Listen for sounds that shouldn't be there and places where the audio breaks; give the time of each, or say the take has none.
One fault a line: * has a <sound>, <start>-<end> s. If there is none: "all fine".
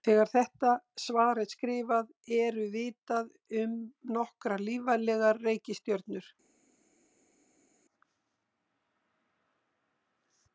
all fine